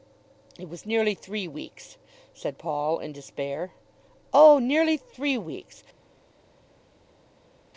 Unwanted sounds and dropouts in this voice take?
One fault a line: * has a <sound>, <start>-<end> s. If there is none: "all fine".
all fine